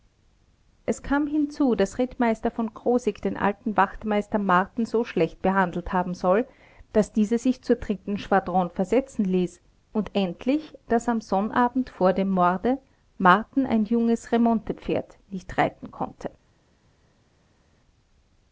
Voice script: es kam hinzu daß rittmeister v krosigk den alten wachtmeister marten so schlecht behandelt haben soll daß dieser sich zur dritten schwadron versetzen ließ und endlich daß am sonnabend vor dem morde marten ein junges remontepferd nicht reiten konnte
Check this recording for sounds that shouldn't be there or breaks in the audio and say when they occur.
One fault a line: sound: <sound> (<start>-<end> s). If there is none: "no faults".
no faults